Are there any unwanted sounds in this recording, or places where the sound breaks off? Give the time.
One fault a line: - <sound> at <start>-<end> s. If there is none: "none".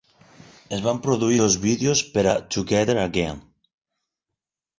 none